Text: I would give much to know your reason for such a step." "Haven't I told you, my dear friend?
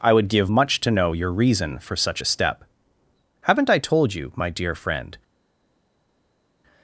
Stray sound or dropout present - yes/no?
no